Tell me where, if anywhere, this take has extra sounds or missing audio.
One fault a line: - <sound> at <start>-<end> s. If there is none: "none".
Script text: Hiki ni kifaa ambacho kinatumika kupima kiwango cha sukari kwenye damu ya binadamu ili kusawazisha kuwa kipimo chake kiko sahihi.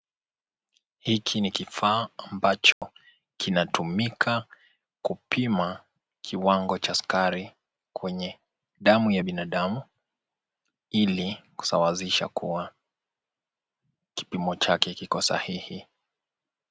- dropout at 2.7-2.8 s